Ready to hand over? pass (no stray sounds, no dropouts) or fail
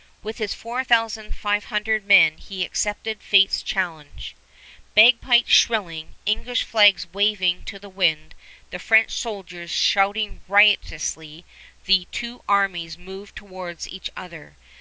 pass